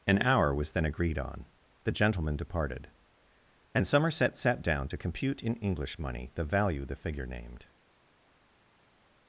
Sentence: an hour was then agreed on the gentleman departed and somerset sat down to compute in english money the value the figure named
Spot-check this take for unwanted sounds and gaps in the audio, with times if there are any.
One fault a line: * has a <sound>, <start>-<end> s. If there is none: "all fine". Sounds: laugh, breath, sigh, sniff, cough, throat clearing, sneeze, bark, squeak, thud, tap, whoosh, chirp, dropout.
all fine